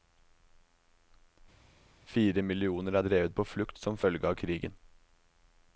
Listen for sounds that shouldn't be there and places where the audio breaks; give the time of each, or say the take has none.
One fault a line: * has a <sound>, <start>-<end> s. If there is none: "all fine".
all fine